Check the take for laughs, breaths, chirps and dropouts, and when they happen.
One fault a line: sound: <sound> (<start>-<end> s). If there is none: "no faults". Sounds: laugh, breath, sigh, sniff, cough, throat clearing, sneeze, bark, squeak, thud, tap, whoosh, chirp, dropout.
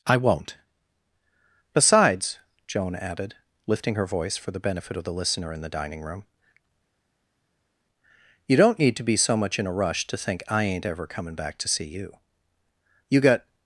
no faults